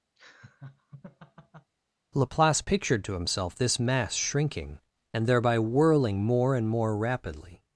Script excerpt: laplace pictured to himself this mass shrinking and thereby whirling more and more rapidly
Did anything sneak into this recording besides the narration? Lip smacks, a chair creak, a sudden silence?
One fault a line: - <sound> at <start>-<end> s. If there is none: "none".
- laugh at 0.2-1.7 s